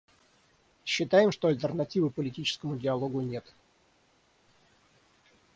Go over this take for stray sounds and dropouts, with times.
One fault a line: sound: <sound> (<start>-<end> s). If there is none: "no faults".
no faults